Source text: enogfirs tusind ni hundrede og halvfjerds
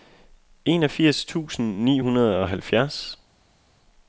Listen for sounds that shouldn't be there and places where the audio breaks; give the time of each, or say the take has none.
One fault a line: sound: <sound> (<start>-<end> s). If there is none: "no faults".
no faults